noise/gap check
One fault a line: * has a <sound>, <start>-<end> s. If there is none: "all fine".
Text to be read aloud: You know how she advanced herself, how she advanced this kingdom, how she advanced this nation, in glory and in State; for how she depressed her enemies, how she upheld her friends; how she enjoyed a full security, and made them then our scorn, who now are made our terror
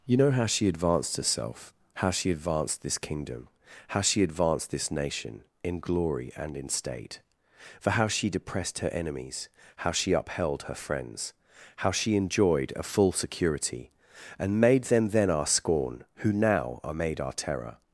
all fine